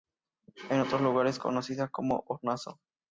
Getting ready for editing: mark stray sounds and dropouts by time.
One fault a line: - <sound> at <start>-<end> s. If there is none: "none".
none